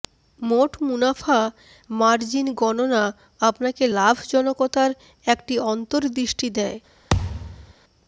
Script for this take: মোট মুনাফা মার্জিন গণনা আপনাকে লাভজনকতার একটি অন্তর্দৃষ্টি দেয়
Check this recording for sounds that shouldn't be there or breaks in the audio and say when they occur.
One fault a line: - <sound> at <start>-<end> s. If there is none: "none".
- thud at 7.1-7.7 s